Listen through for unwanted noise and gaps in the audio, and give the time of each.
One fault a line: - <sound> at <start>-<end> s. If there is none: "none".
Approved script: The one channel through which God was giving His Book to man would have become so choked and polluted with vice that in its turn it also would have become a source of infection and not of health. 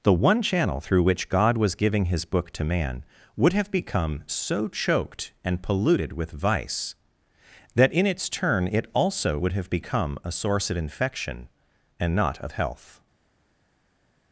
none